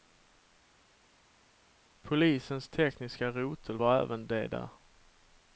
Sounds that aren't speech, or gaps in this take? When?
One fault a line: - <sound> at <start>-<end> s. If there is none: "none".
none